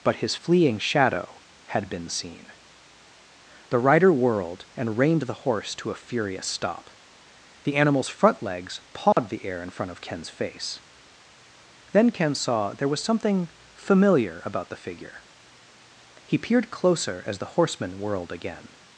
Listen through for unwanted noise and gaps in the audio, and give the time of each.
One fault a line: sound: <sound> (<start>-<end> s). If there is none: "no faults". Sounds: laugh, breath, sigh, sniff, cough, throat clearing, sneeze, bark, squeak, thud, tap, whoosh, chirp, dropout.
sound: dropout (9.1-9.2 s)